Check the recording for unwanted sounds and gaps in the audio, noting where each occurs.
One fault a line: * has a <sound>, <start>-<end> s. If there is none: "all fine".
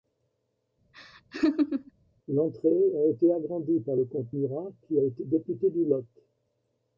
* has a laugh, 0.9-1.9 s